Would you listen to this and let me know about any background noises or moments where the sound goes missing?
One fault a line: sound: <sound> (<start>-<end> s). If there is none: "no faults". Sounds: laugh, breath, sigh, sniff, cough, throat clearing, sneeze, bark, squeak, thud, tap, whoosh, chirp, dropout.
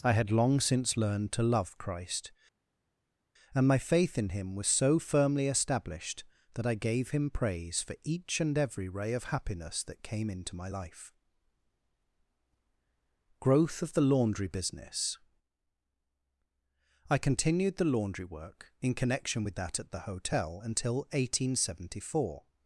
no faults